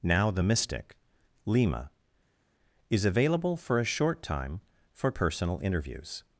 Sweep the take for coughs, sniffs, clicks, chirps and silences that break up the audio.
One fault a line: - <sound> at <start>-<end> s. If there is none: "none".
none